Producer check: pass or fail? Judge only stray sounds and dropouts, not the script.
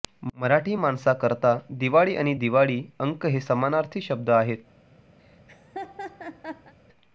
fail